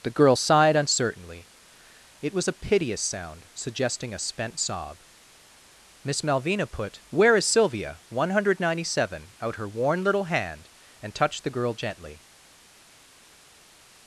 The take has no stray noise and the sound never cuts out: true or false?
true